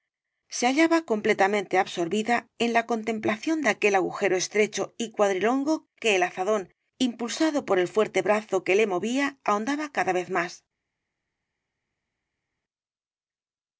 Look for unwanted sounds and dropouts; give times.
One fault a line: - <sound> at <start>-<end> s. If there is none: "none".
none